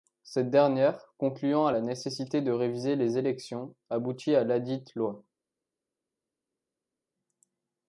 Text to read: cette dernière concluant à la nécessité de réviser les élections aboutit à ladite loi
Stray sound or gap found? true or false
false